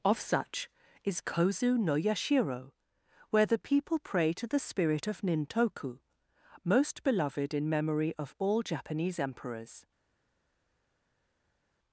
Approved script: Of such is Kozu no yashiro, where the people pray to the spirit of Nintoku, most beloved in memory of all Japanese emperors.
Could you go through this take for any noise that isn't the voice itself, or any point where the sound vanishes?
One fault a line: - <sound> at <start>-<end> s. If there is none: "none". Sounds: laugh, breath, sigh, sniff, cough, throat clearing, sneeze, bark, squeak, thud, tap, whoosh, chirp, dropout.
none